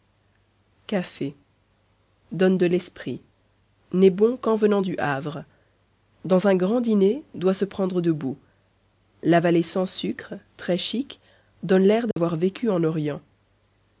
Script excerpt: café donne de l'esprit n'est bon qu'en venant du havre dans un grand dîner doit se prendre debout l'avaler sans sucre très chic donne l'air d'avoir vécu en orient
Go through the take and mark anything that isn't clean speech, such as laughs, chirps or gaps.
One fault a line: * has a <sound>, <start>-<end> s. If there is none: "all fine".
* has a dropout, 12.1-12.2 s